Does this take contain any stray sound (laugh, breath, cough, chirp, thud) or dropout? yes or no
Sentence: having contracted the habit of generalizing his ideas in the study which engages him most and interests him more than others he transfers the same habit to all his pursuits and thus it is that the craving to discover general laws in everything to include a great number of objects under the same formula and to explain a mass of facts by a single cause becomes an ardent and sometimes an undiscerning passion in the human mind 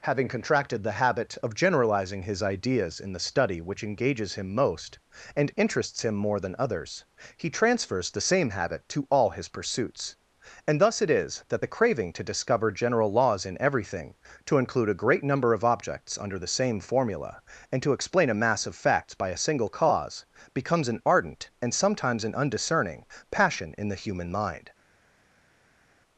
no